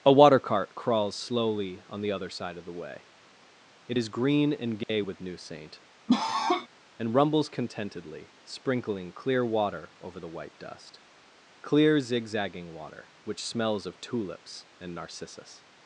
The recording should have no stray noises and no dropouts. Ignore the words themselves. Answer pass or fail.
fail